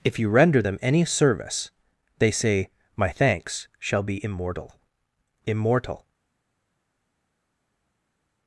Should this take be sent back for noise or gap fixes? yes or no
no